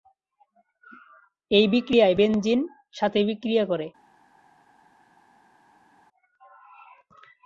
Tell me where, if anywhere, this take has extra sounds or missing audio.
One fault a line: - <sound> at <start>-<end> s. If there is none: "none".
none